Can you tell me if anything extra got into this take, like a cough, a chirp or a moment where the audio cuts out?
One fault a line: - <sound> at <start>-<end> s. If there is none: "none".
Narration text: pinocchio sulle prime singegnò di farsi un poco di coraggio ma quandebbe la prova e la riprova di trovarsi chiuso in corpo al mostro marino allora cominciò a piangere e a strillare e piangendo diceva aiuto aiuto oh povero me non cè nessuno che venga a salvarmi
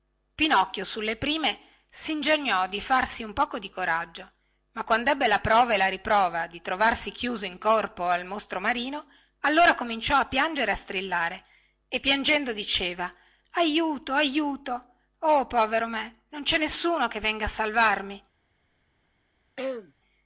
- throat clearing at 19.6-19.9 s